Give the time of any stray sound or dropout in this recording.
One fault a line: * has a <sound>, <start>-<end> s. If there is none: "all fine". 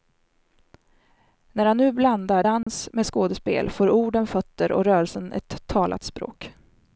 * has a dropout, 2.6-2.7 s